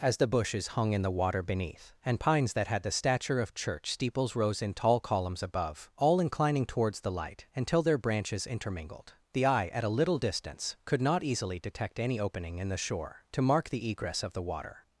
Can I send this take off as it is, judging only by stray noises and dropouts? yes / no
yes